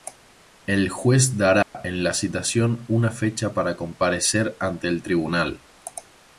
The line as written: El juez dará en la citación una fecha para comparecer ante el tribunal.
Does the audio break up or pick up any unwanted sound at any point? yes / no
yes